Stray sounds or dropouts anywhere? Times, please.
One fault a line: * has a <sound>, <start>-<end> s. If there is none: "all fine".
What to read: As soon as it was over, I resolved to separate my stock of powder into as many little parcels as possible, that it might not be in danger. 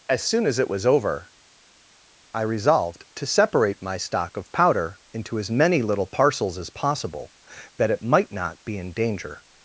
all fine